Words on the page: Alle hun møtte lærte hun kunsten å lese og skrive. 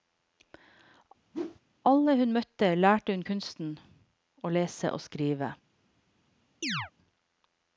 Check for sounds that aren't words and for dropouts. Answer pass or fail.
fail